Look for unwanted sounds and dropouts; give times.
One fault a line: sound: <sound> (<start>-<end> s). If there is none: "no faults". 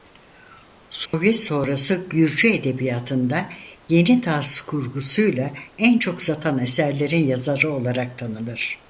sound: dropout (1.1-1.1 s)